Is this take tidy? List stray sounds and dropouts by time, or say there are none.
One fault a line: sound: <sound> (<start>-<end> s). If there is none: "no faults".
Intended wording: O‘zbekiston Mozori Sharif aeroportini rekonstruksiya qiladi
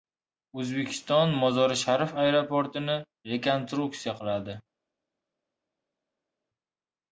no faults